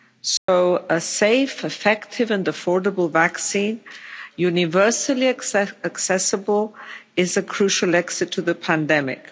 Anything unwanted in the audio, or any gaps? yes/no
yes